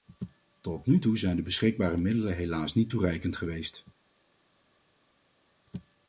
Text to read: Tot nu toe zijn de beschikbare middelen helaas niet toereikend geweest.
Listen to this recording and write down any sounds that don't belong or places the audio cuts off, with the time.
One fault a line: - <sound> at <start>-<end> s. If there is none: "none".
none